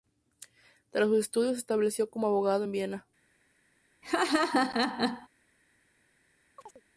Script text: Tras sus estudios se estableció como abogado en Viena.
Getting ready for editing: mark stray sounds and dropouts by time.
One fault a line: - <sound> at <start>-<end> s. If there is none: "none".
- laugh at 4.0-5.3 s
- chirp at 6.6-6.8 s